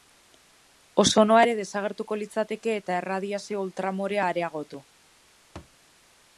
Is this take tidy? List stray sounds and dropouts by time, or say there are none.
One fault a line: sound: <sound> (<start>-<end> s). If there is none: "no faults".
sound: thud (5.6-5.8 s)